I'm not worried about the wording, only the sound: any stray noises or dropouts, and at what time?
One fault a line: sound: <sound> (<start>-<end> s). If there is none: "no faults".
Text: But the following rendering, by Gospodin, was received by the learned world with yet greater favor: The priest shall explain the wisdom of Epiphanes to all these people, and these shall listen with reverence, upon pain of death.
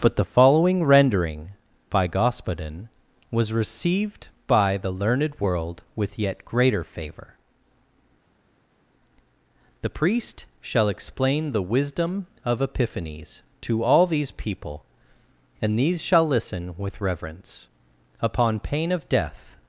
no faults